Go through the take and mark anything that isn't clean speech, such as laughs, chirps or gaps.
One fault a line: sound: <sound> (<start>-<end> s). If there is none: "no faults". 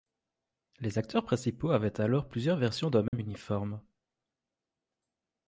sound: dropout (3.1-3.1 s)